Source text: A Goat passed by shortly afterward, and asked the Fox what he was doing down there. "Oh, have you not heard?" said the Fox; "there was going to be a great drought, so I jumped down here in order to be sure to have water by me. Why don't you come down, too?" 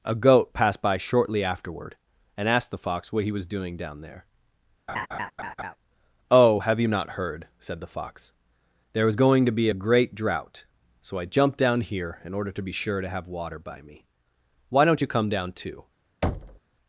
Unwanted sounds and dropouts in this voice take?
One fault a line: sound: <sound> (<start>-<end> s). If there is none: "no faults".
sound: laugh (4.9-5.8 s)
sound: thud (16.2-16.6 s)